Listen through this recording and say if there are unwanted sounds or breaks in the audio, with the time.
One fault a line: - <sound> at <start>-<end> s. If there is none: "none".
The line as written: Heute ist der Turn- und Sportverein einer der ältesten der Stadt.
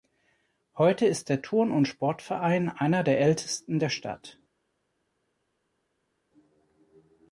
none